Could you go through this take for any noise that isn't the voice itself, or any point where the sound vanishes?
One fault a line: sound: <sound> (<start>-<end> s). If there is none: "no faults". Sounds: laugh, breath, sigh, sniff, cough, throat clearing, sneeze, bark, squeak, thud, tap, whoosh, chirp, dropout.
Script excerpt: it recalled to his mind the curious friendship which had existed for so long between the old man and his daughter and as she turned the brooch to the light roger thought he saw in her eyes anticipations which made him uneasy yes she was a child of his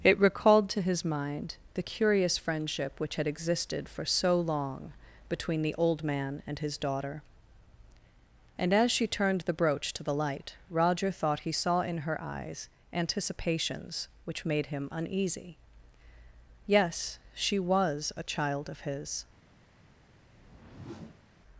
sound: whoosh (20.3-21.3 s)